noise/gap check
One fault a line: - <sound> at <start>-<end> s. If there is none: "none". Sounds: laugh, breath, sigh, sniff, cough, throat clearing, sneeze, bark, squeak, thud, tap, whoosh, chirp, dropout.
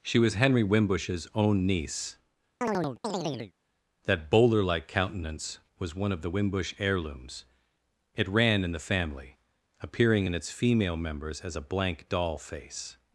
- chirp at 2.6-3.5 s